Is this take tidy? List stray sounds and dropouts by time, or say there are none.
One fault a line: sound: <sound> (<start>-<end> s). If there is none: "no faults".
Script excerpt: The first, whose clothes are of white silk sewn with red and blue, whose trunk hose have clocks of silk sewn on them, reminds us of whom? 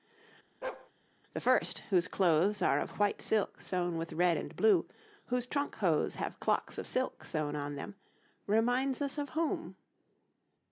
sound: bark (0.6-0.9 s)